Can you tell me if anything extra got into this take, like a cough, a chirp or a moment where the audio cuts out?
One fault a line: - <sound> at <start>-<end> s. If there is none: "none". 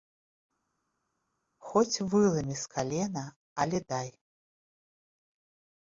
none